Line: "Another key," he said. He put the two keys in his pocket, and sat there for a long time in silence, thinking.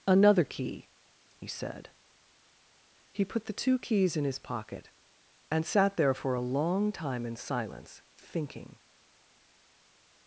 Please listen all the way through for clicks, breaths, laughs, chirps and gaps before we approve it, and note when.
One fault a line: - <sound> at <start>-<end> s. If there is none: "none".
none